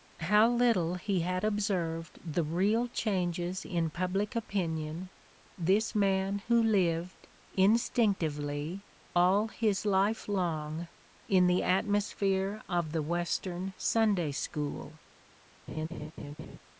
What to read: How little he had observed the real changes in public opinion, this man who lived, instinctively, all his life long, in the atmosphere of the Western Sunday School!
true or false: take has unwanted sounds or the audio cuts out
true